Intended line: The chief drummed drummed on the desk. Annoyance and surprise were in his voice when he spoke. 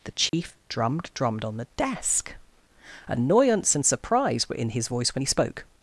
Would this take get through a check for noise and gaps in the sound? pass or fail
fail